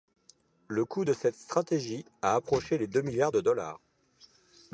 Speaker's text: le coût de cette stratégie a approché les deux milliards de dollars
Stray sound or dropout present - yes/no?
no